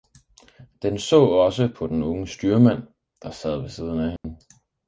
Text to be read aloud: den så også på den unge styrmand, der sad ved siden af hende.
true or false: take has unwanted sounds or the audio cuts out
true